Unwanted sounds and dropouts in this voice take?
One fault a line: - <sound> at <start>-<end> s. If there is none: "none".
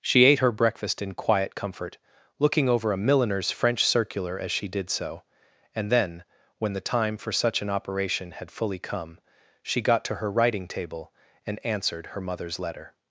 none